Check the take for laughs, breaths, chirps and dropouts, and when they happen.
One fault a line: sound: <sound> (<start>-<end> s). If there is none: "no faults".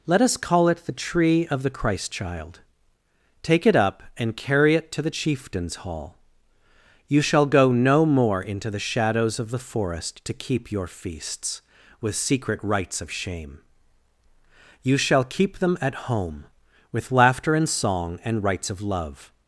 no faults